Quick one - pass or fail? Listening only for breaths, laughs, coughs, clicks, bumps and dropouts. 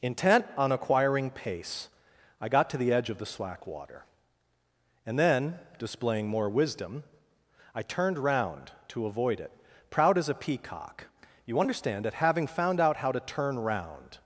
pass